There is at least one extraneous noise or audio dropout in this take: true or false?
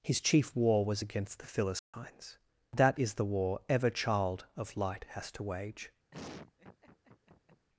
true